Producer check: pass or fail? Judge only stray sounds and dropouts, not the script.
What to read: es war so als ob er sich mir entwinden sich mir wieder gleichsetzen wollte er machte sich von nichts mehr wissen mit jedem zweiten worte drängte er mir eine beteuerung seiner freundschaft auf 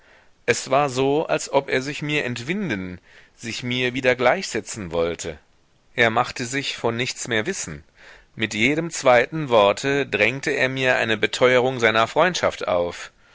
pass